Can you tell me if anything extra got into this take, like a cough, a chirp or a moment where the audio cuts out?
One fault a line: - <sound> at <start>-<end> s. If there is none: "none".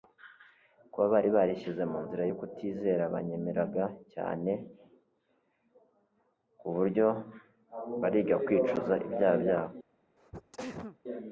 - sneeze at 10.2-11.0 s